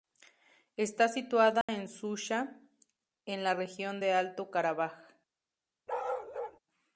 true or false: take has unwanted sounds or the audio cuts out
true